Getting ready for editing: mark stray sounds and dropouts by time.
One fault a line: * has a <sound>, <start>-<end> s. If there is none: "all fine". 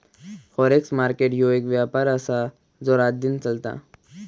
all fine